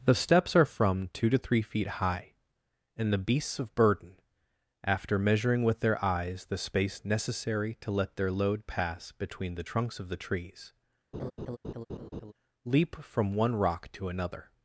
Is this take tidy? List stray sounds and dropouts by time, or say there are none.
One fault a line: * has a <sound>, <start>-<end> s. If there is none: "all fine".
* has a laugh, 11.1-12.3 s